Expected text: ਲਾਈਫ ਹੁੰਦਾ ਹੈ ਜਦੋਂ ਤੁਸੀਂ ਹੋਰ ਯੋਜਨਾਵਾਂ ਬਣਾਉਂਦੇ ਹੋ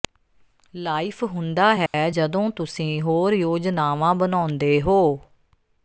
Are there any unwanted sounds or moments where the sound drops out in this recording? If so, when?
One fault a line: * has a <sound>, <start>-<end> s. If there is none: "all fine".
* has a dropout, 1.9-1.9 s